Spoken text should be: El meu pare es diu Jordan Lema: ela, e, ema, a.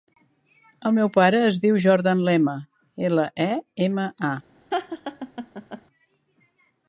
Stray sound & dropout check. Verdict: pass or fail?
fail